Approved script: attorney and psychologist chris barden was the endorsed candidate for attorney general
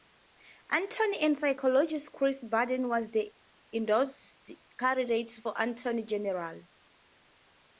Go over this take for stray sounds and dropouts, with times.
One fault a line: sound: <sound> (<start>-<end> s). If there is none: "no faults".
no faults